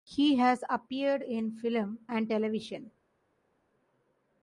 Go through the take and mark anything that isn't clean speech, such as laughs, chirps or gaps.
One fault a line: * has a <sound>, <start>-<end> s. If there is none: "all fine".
all fine